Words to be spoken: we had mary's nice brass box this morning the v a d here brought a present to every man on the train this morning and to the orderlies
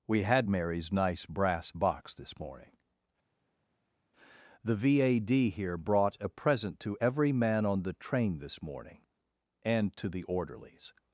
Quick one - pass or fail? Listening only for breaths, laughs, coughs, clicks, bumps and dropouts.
pass